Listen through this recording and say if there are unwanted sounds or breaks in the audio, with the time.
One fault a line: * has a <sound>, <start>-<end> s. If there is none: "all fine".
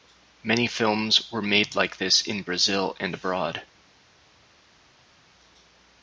all fine